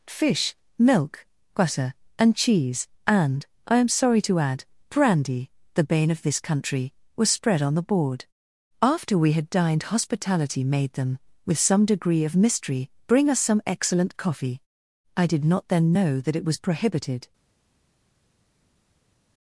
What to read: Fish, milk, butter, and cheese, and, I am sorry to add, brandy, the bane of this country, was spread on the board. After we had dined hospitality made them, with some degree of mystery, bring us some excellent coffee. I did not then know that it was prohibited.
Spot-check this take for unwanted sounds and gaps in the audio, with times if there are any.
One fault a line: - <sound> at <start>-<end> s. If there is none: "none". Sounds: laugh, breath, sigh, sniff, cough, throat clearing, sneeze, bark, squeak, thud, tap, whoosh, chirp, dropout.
none